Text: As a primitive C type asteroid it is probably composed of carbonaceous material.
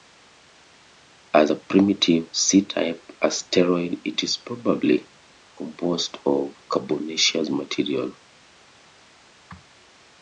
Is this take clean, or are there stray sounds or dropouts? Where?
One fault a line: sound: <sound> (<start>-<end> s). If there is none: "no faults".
no faults